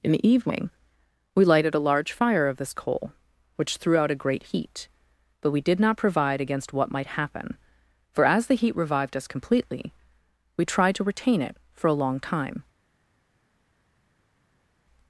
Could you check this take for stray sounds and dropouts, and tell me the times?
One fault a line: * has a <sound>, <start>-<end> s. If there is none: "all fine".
all fine